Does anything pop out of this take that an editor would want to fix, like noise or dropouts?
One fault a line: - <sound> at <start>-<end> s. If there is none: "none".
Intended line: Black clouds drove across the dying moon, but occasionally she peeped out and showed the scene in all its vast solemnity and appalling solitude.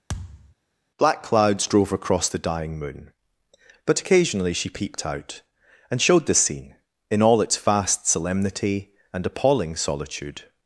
- thud at 0.1-0.5 s